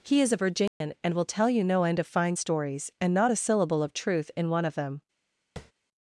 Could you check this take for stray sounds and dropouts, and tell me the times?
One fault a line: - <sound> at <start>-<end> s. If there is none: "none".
- dropout at 0.7-0.8 s
- tap at 5.6-5.7 s